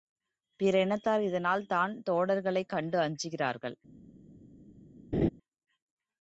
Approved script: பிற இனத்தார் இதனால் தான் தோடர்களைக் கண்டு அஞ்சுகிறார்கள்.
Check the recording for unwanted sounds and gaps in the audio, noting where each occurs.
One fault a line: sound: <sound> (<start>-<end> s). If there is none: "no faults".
sound: laugh (5.1-5.3 s)